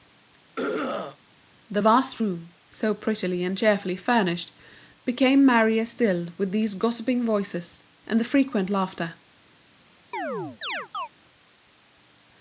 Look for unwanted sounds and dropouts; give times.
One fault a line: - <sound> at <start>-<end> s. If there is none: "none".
- throat clearing at 0.6-1.2 s
- chirp at 10.1-11.1 s